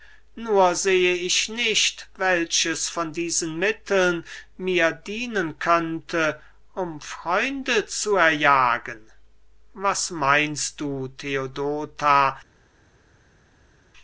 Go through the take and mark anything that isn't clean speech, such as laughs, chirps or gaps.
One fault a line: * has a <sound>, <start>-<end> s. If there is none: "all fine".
all fine